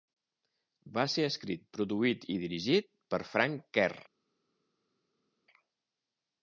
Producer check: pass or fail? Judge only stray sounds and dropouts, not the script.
pass